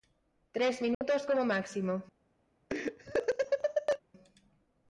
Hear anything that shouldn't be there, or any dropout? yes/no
yes